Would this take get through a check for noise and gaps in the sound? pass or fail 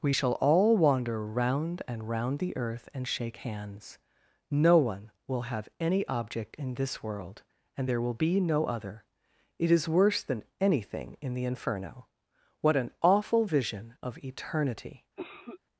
fail